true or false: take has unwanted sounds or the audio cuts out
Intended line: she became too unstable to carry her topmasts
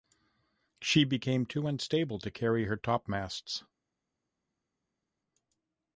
false